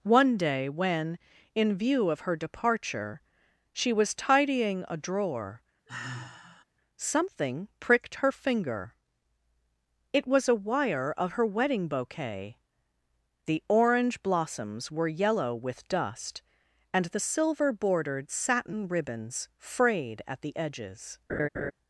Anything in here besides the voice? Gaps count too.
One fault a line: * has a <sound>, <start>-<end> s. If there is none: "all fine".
* has a sigh, 5.9-6.6 s
* has a laugh, 21.3-21.7 s